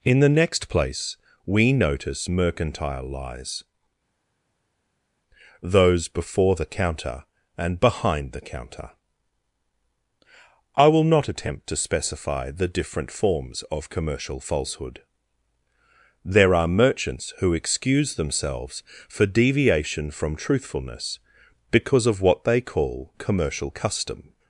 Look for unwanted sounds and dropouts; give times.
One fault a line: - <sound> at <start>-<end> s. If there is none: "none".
none